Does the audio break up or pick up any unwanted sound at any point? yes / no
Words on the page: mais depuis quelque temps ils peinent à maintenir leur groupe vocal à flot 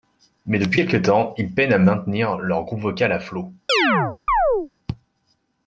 yes